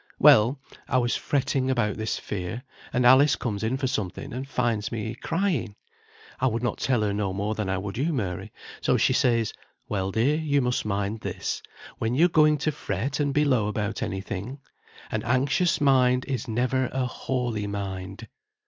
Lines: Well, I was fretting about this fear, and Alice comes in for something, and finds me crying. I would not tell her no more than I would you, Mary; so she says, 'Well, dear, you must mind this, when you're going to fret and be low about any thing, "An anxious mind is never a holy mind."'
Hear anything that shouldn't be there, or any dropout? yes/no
no